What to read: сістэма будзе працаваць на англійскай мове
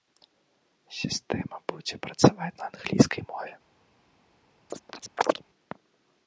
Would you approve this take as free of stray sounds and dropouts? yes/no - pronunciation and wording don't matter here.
no